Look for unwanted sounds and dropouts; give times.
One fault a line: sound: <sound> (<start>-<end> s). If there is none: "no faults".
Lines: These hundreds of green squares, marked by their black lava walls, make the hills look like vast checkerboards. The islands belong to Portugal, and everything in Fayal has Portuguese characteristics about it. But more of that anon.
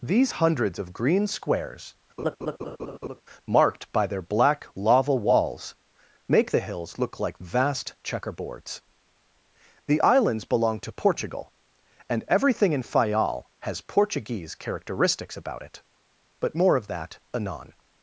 sound: laugh (2.2-3.2 s)